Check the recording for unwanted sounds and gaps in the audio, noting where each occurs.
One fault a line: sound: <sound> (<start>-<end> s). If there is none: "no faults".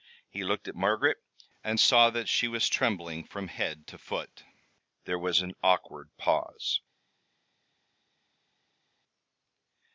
no faults